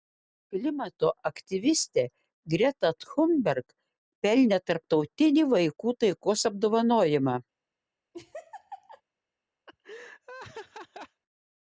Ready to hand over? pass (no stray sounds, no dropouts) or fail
fail